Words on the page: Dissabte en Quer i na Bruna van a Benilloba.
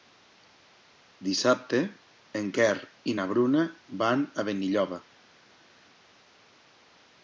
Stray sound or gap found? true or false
false